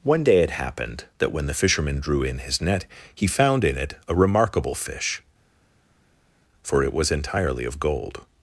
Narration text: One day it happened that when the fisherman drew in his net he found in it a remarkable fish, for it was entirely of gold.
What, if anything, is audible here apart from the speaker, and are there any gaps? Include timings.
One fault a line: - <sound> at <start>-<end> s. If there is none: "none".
none